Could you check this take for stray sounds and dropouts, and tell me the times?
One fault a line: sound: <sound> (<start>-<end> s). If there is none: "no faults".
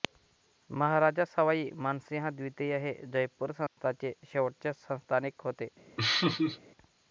sound: dropout (3.7-3.8 s)
sound: laugh (6.0-6.6 s)